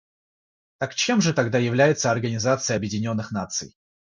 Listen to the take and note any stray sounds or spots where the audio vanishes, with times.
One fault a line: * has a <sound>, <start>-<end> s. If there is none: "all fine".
all fine